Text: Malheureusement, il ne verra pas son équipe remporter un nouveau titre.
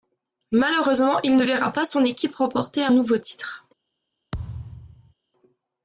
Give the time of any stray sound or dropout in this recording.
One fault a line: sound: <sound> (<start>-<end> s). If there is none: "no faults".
sound: thud (4.3-5.1 s)